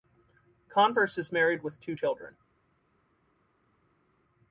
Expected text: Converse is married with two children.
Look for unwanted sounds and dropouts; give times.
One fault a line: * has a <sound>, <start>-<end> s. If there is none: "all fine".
all fine